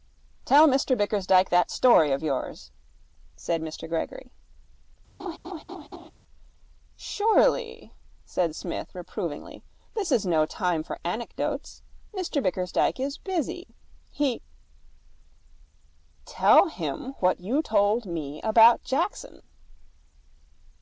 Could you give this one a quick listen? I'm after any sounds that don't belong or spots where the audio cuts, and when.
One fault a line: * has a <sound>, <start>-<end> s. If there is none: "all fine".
* has a laugh, 5.2-6.1 s